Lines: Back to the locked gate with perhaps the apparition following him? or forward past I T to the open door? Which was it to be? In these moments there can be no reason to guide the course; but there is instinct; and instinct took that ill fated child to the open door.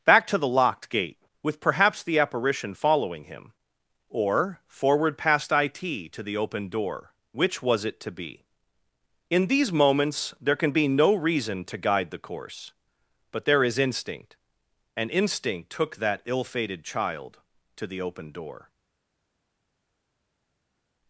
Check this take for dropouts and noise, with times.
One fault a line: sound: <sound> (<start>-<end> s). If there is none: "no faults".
no faults